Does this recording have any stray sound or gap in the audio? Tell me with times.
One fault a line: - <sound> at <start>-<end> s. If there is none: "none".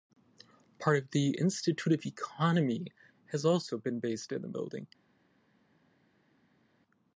none